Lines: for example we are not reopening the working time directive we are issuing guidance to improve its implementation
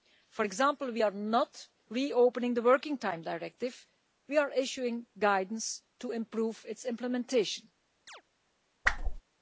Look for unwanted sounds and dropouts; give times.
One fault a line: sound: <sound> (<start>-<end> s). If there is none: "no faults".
sound: chirp (8.1-8.2 s)
sound: whoosh (8.8-9.2 s)